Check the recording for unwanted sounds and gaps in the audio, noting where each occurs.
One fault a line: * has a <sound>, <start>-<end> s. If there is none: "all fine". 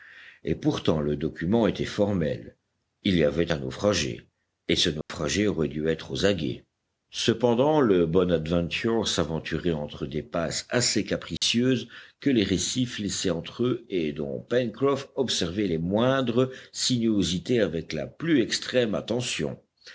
* has a dropout, 5.0-5.1 s
* has a dropout, 11.4-11.4 s